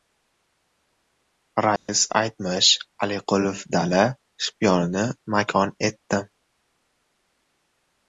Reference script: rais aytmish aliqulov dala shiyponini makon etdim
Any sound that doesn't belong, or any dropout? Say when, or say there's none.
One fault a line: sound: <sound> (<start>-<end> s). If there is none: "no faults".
sound: dropout (1.8-1.9 s)